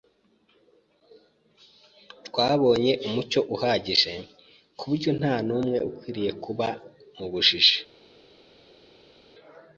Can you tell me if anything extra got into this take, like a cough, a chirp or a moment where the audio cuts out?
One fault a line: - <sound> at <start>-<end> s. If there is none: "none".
none